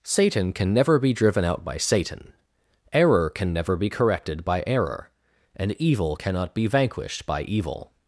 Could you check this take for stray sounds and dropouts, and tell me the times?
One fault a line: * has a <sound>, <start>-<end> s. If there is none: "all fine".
all fine